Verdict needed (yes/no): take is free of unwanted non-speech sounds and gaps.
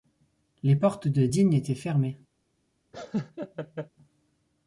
no